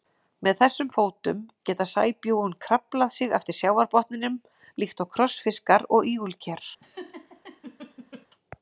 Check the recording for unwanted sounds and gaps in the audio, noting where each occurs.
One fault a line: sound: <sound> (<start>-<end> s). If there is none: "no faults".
sound: laugh (6.8-8.3 s)